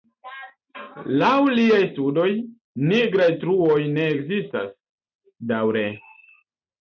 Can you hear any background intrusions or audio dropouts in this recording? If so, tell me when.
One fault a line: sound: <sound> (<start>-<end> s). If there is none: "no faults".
no faults